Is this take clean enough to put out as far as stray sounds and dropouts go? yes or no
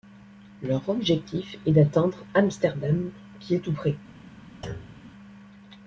no